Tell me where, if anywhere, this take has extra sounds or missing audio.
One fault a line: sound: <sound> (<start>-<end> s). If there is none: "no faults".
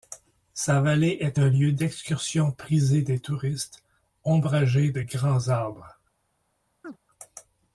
sound: chirp (6.8-7.0 s)